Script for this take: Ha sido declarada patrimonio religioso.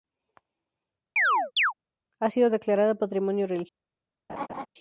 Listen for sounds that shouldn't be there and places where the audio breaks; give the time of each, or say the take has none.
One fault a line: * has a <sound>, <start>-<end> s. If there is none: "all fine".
* has a chirp, 1.2-1.7 s
* has a laugh, 4.3-4.7 s